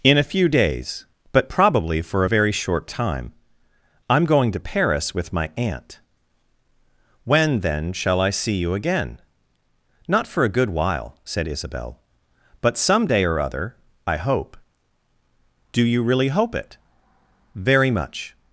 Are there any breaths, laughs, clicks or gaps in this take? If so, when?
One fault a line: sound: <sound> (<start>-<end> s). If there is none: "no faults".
no faults